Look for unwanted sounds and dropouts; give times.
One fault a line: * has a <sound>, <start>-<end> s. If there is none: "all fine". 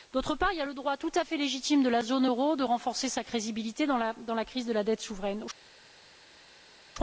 all fine